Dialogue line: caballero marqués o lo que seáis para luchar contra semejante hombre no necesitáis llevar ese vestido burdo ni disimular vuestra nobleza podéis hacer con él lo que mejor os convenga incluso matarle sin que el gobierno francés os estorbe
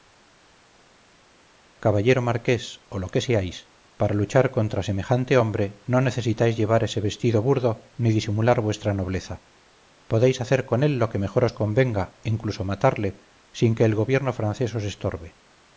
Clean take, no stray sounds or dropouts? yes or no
yes